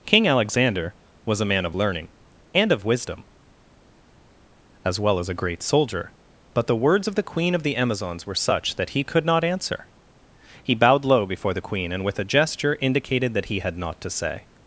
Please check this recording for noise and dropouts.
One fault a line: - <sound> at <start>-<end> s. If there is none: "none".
none